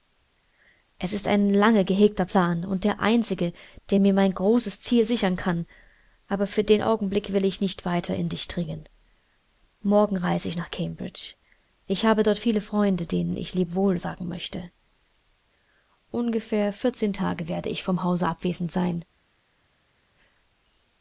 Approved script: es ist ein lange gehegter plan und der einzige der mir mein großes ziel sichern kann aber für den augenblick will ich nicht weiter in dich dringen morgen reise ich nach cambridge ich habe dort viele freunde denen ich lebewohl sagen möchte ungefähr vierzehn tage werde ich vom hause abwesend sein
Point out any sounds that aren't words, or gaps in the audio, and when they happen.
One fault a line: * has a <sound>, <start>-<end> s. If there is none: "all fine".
all fine